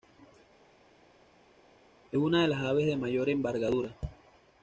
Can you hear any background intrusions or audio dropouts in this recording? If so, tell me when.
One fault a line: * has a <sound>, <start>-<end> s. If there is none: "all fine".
all fine